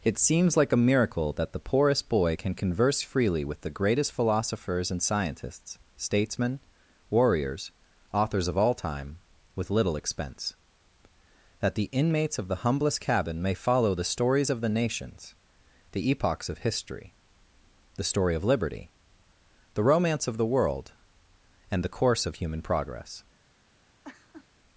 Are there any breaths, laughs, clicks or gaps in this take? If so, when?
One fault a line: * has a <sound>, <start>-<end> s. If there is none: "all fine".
* has a laugh, 24.0-24.5 s